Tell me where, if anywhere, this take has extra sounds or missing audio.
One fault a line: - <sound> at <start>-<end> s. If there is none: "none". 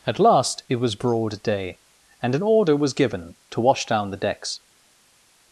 none